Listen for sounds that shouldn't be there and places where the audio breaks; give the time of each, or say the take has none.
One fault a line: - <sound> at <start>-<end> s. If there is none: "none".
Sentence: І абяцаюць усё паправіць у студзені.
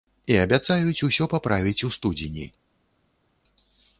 none